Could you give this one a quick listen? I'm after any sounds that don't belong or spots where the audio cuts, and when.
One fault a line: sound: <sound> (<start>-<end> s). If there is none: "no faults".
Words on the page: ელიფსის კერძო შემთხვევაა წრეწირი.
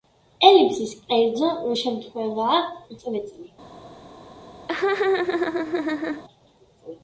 sound: laugh (4.7-6.2 s)